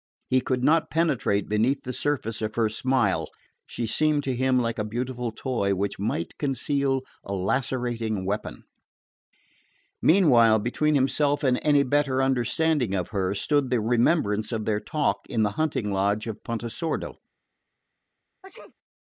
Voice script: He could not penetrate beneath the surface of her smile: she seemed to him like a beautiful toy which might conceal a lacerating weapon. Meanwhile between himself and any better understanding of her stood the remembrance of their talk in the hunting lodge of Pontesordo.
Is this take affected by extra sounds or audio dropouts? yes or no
yes